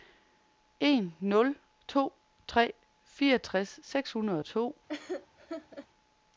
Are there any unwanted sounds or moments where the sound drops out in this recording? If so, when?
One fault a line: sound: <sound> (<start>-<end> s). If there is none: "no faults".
sound: laugh (4.9-5.9 s)